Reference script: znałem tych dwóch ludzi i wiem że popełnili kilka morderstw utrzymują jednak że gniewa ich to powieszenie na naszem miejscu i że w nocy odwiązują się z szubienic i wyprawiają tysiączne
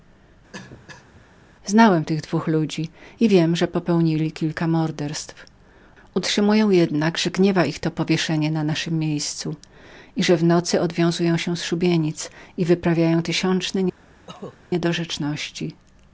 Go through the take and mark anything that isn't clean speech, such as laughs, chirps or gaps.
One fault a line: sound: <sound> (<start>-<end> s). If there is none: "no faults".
sound: cough (0.5-1.3 s)
sound: cough (14.3-14.6 s)